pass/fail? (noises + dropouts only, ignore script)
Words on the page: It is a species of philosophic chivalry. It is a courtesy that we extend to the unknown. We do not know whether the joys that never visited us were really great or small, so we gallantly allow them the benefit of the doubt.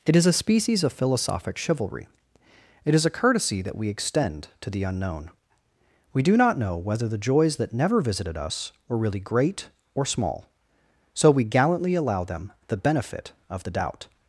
pass